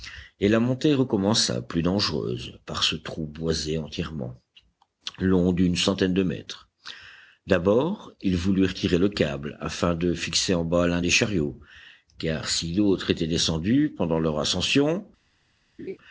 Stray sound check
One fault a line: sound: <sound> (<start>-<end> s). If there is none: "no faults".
sound: laugh (15.8-16.0 s)